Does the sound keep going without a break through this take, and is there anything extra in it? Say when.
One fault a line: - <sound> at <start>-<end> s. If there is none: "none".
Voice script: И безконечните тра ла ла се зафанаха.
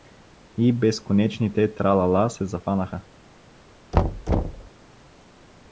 - thud at 3.9-4.7 s